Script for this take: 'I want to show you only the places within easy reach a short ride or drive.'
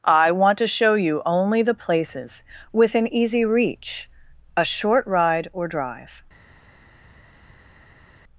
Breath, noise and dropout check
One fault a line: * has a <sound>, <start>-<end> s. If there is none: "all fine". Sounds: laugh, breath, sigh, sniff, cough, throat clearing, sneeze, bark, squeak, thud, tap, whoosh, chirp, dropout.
all fine